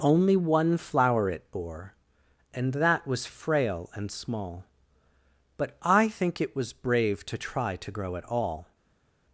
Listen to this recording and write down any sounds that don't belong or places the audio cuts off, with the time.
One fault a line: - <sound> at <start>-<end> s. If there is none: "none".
none